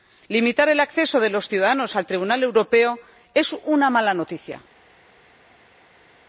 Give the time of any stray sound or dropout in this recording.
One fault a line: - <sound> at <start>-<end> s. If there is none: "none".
none